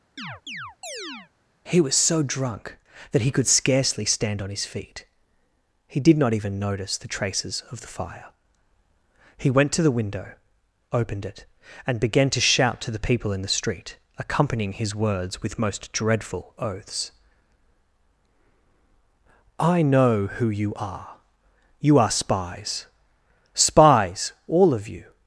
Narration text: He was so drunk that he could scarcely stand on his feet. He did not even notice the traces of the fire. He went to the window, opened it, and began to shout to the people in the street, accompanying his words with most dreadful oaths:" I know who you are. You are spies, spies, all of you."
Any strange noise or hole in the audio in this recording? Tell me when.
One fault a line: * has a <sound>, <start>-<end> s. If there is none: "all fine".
* has a chirp, 0.2-1.3 s